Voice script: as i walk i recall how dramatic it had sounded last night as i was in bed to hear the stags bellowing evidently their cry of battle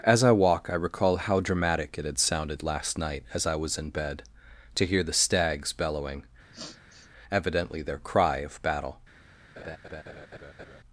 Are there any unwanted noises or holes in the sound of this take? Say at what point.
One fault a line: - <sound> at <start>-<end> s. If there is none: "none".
- sniff at 6.5-7.1 s
- laugh at 9.6-10.8 s